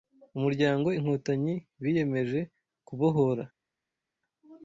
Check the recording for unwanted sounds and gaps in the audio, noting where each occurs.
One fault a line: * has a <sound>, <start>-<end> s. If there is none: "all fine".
all fine